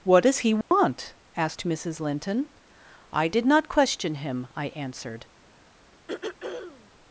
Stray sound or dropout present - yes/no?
yes